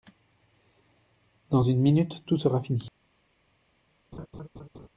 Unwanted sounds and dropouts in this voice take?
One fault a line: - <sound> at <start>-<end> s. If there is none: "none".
- laugh at 4.1-4.9 s